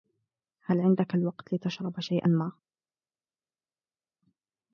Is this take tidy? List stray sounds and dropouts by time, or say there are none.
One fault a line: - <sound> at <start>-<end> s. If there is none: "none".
none